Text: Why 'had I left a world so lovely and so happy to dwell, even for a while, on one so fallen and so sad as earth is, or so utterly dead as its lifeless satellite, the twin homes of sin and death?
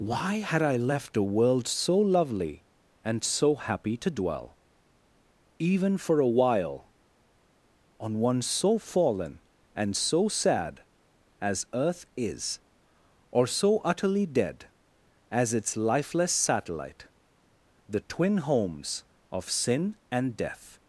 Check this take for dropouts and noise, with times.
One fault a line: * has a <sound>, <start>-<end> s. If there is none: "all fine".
all fine